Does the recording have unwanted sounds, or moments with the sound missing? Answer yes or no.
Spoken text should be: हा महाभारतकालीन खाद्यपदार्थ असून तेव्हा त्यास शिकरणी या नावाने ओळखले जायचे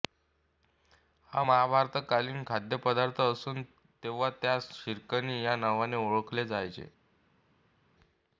no